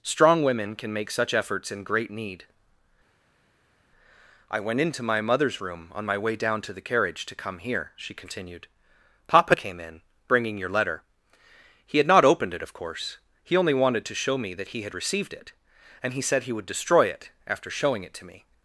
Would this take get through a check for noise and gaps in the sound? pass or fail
pass